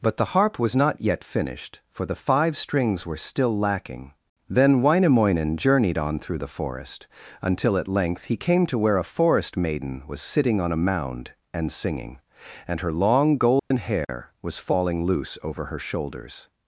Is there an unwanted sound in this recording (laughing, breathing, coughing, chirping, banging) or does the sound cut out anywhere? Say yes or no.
yes